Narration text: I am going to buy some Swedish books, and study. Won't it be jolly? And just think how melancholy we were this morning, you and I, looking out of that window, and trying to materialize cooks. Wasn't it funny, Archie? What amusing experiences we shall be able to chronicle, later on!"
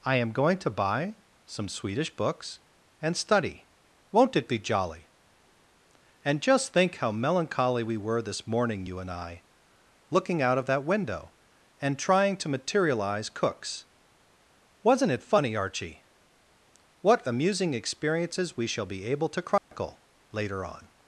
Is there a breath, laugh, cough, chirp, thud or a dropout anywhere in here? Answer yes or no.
yes